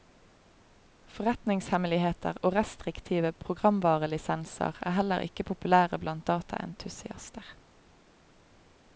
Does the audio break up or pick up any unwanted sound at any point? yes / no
no